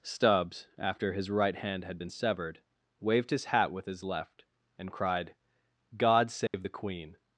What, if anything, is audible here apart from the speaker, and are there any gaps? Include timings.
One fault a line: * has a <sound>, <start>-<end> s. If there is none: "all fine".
* has a dropout, 6.5-6.5 s